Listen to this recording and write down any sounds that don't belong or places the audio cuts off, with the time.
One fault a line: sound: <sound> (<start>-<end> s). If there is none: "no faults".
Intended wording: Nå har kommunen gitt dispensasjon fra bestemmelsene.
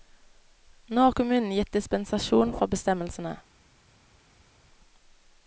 no faults